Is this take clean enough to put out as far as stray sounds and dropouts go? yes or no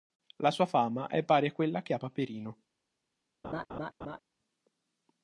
no